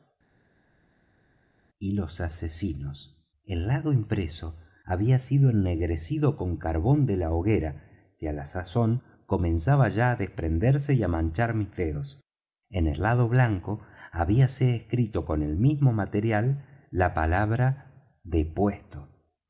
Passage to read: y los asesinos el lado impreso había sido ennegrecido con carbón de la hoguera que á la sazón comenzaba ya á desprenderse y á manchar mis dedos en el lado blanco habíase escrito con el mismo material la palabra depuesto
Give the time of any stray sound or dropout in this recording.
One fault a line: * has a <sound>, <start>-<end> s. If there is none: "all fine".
all fine